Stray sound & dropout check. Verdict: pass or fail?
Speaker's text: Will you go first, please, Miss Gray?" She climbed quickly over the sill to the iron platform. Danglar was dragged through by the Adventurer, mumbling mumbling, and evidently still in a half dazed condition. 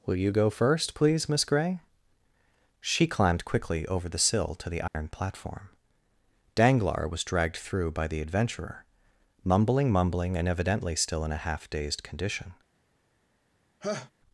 fail